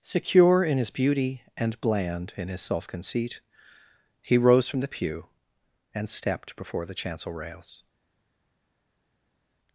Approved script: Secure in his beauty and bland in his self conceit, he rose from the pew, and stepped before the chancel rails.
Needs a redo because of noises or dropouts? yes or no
no